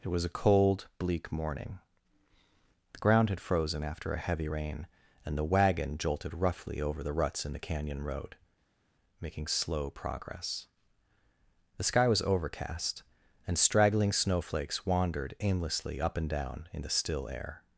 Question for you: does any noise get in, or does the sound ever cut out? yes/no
no